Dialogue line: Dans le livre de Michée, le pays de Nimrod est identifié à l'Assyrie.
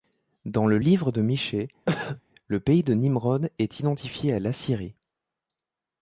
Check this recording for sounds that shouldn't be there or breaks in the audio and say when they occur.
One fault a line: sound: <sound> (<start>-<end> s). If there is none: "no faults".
sound: cough (1.9-2.2 s)